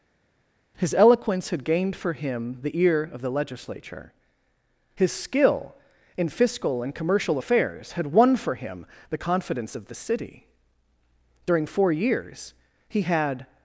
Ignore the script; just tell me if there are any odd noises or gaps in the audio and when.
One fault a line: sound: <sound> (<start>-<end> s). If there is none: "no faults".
no faults